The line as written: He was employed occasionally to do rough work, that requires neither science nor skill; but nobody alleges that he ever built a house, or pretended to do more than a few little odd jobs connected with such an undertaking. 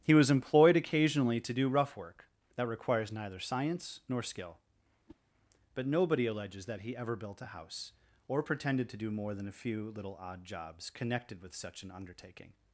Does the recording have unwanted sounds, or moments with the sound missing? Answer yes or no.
yes